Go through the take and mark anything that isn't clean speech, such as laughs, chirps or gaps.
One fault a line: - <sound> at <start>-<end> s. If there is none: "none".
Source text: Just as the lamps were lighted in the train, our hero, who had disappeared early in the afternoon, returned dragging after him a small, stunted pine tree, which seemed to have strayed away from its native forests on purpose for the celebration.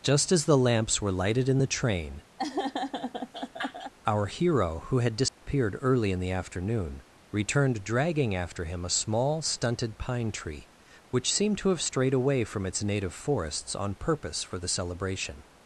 - laugh at 2.4-3.9 s
- dropout at 5.3-5.4 s